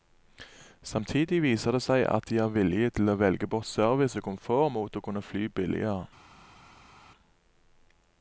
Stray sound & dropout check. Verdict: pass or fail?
pass